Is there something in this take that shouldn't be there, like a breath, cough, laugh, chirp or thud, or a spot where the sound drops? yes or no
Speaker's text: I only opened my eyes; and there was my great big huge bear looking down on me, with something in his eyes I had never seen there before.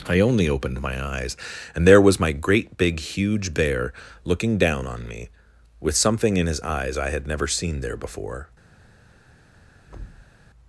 yes